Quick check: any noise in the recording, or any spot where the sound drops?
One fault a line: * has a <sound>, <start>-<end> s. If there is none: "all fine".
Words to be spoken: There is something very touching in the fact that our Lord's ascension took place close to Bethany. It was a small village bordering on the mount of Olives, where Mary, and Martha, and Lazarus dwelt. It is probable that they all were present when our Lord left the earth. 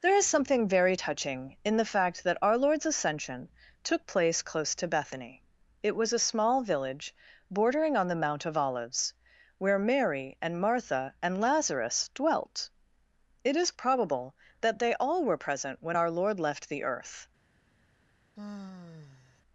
* has a sigh, 18.4-19.4 s